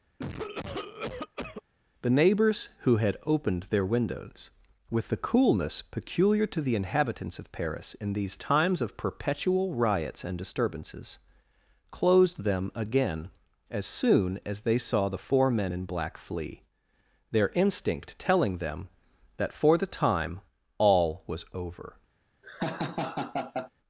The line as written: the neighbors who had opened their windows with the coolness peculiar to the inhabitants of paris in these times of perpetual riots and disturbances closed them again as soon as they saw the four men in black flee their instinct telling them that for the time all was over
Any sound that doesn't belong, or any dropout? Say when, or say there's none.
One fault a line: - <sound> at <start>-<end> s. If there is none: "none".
- cough at 0.2-1.6 s
- laugh at 22.4-23.7 s